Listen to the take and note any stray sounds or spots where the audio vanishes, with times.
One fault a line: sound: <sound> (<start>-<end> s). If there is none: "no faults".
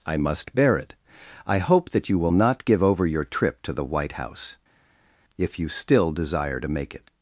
no faults